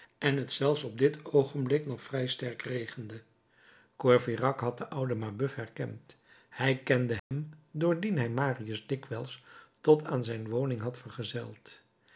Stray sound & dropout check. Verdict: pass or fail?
fail